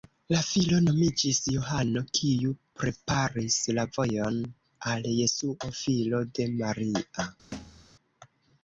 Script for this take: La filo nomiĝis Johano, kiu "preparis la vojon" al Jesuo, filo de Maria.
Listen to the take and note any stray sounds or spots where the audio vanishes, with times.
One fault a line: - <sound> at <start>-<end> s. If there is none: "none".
- thud at 7.5-7.9 s